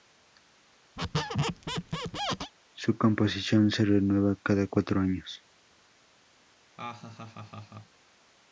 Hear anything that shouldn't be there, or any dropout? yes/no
yes